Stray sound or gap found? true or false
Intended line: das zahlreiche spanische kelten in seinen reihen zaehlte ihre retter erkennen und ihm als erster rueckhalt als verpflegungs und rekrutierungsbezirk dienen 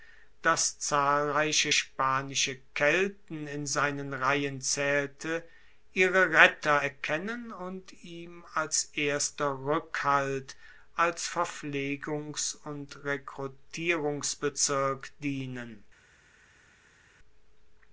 false